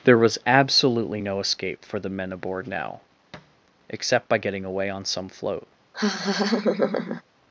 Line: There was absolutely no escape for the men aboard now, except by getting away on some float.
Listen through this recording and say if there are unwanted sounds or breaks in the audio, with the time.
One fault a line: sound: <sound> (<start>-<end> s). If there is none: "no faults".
sound: thud (3.3-3.6 s)
sound: laugh (5.9-7.2 s)